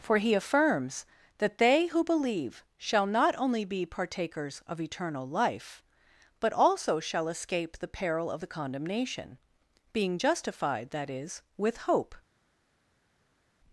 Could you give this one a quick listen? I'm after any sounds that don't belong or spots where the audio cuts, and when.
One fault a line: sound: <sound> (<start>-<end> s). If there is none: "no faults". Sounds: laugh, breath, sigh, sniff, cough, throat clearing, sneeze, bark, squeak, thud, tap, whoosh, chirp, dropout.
no faults